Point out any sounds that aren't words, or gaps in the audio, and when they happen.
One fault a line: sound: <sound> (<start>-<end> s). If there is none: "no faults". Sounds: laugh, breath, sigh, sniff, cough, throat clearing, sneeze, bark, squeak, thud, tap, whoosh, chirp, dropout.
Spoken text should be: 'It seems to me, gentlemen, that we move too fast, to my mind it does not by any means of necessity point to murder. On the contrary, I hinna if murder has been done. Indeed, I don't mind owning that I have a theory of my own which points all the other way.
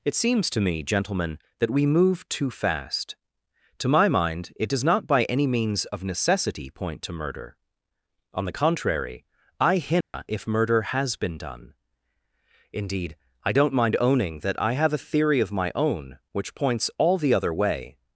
sound: dropout (10.0-10.1 s)